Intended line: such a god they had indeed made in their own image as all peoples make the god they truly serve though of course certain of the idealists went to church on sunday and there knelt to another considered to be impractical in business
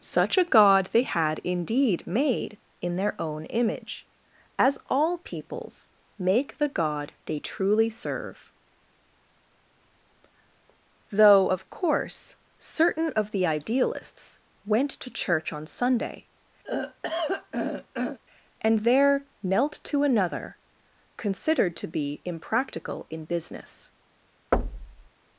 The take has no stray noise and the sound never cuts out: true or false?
false